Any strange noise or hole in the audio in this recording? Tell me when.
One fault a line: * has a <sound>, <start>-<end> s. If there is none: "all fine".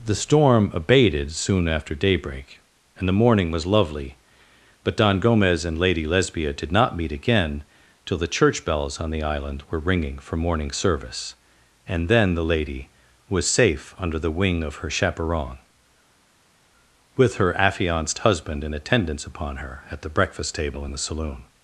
all fine